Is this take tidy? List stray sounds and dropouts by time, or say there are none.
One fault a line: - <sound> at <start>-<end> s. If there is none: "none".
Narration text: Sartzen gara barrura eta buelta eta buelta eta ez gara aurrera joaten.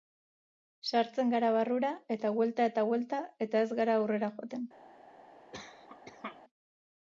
- cough at 5.5-6.4 s